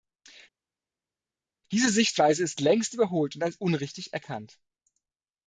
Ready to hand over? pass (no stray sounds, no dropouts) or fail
pass